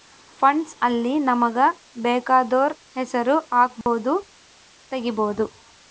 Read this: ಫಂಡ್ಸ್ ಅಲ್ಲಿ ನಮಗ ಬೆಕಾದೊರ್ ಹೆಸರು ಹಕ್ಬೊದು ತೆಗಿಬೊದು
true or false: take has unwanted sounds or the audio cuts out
true